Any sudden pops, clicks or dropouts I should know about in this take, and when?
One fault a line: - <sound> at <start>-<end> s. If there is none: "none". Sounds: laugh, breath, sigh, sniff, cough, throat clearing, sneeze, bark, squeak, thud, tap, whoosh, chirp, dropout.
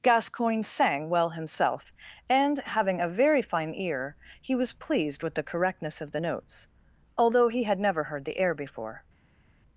none